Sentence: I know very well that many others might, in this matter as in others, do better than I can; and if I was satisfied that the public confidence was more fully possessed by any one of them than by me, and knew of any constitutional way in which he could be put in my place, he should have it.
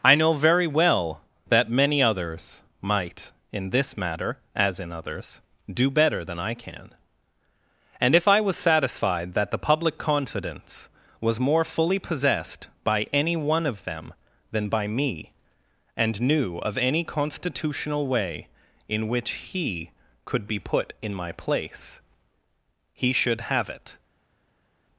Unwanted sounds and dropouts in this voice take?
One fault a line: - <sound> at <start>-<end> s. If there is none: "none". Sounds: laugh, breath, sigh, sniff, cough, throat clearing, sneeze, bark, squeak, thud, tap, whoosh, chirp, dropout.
none